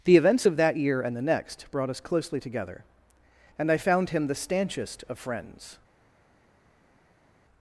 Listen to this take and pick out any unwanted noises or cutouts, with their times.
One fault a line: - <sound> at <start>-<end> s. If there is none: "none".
none